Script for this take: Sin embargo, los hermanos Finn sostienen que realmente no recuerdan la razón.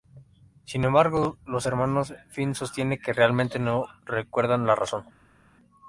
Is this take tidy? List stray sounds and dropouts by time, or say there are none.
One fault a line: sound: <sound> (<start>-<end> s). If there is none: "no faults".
no faults